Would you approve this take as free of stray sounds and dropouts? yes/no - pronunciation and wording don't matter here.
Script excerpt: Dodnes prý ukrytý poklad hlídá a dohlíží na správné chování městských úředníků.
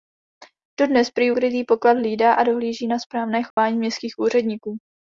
no